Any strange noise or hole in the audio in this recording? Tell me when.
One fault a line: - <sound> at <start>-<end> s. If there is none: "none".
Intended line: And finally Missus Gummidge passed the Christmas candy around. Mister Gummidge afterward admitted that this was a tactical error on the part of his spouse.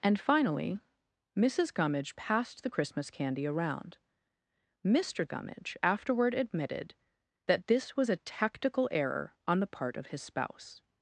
none